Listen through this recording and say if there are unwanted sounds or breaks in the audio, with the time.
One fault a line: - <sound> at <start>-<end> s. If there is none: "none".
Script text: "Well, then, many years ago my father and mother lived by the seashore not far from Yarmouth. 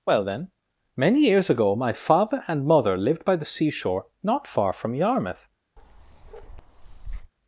- bark at 5.8-7.3 s